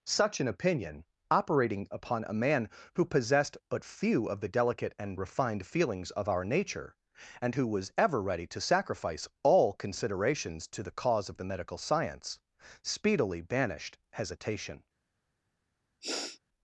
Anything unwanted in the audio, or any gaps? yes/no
yes